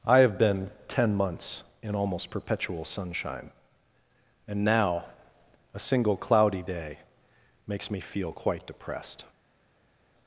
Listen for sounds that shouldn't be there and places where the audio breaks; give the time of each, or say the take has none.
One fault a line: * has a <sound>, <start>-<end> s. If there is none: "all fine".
all fine